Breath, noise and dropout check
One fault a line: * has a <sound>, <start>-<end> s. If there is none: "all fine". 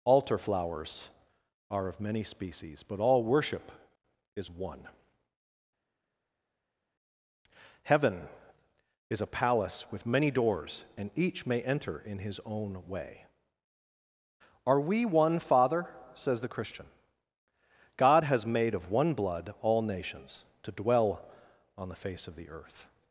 all fine